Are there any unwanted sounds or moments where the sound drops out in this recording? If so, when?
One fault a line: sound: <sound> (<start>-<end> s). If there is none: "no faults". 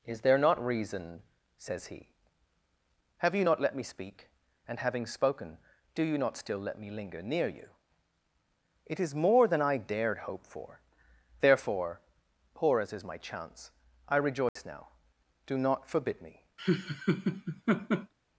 sound: dropout (14.5-14.6 s)
sound: laugh (16.6-18.1 s)